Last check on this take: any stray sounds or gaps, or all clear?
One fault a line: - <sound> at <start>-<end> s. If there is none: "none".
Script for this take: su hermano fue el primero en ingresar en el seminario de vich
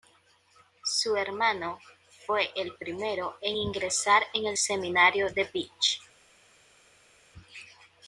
none